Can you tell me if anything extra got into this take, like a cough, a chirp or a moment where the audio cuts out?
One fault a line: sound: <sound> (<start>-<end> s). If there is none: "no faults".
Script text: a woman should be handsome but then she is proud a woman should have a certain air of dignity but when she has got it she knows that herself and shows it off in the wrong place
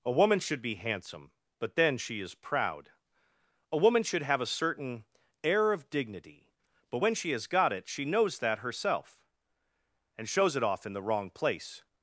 no faults